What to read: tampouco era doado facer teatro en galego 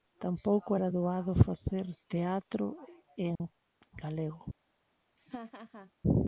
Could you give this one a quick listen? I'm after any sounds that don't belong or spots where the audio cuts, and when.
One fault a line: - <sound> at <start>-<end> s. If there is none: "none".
- dropout at 3.4-3.4 s
- laugh at 5.2-5.9 s